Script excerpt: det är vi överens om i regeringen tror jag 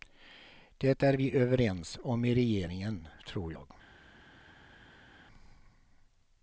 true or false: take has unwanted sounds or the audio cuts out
false